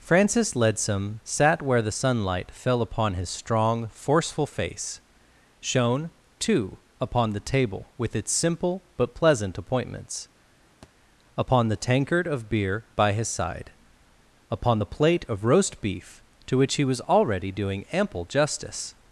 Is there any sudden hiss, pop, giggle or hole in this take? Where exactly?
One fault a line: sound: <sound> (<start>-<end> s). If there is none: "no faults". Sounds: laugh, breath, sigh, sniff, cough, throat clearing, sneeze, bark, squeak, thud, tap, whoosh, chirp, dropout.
sound: thud (10.8-10.9 s)